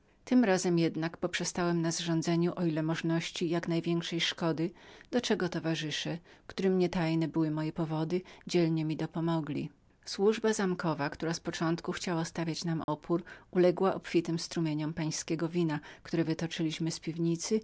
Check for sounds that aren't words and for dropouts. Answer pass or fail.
fail